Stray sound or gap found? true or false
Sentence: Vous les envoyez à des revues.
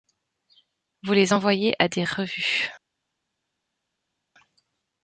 false